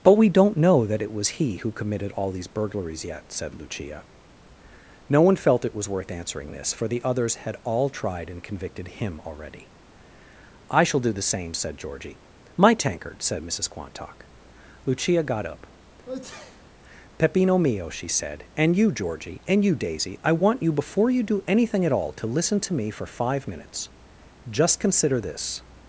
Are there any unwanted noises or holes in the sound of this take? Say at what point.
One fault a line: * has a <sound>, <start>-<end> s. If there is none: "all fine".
* has a sneeze, 16.0-16.7 s